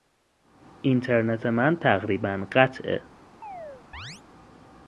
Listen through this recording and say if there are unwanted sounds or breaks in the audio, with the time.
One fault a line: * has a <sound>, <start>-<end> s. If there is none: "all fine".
* has a chirp, 3.4-4.2 s